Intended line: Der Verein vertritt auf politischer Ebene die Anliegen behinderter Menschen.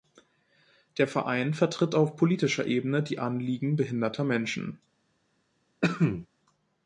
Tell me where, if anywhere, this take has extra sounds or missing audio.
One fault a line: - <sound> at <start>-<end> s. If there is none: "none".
- cough at 5.8-6.3 s